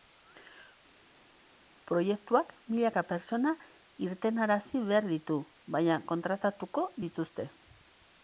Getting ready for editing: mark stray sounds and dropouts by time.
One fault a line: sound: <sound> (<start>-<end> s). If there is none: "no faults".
no faults